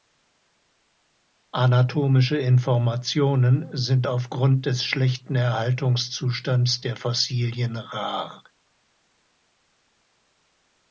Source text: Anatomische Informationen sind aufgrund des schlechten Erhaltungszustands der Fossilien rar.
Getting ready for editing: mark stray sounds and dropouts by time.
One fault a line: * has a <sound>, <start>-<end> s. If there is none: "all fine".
all fine